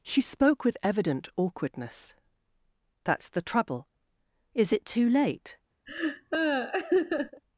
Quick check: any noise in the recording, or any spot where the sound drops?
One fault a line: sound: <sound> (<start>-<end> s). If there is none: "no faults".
sound: laugh (5.9-7.4 s)